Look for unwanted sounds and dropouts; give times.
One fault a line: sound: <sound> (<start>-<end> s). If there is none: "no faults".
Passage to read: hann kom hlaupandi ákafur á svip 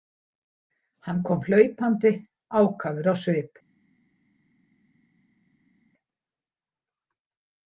no faults